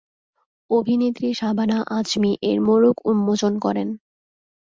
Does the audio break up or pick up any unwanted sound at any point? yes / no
no